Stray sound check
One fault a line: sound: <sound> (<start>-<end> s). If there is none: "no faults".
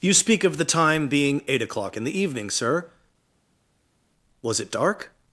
no faults